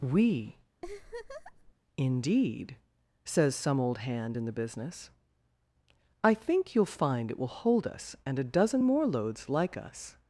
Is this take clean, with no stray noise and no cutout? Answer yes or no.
no